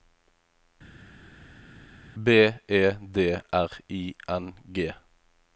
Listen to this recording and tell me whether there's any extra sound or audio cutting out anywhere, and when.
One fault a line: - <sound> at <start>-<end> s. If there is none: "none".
none